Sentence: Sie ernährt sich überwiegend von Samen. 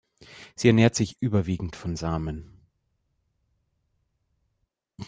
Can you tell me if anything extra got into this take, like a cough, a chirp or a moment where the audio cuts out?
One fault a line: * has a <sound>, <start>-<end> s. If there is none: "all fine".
all fine